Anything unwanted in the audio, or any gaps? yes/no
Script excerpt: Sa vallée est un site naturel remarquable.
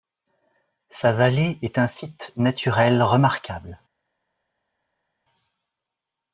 no